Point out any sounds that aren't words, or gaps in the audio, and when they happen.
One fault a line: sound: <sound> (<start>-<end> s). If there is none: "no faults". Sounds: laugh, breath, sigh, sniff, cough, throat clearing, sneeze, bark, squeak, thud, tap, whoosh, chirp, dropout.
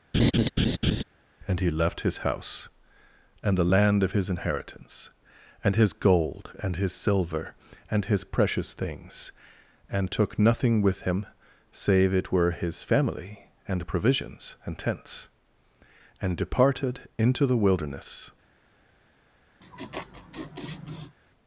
sound: laugh (0.1-1.0 s)
sound: laugh (19.6-21.2 s)